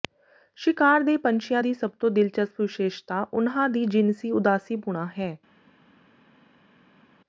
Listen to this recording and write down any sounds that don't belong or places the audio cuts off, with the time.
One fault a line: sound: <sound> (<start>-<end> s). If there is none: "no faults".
no faults